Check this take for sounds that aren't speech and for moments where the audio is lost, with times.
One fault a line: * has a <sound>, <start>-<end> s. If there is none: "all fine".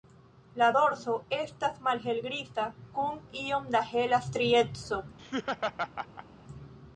* has a laugh, 5.2-6.3 s